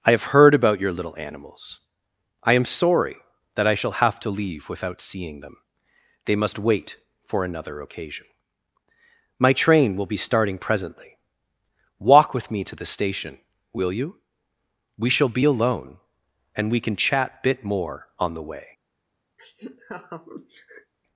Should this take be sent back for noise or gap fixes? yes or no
yes